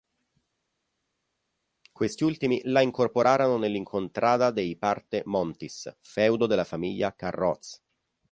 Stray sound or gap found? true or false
false